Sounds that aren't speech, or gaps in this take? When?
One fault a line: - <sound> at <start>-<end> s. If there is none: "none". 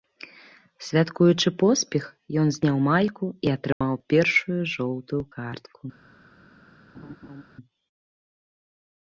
- dropout at 3.7-3.8 s
- laugh at 6.9-7.4 s